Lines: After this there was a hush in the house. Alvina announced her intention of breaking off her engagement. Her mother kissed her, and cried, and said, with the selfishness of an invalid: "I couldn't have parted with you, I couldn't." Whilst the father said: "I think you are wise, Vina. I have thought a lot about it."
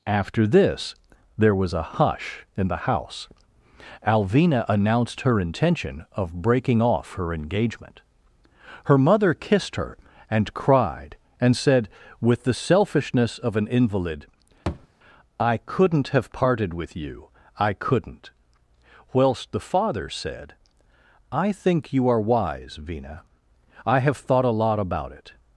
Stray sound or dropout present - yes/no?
yes